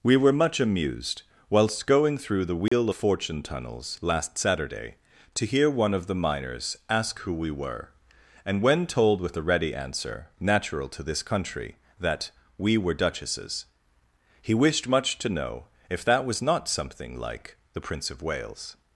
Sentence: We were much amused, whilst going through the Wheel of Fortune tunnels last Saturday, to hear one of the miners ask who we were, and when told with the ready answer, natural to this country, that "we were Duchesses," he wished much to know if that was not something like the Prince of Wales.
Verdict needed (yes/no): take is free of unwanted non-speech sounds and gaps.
no